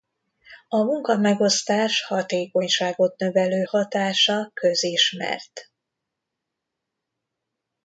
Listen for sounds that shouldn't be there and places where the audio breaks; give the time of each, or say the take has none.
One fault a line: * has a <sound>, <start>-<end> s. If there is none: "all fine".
all fine